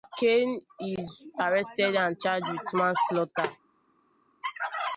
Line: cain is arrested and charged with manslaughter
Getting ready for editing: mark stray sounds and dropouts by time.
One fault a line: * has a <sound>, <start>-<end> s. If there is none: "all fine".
all fine